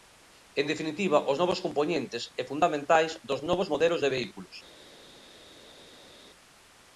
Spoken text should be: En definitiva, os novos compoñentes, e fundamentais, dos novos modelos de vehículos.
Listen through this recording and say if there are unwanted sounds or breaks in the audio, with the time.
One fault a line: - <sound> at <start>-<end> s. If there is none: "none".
none